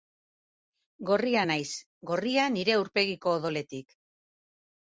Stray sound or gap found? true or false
false